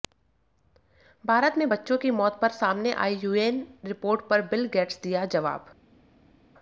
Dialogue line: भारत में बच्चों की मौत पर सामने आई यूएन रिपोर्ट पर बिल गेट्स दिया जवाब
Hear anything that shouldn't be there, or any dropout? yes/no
no